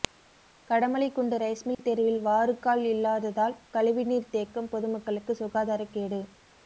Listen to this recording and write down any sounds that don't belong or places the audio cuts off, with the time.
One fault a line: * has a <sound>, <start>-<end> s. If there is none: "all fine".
* has a dropout, 1.7-1.8 s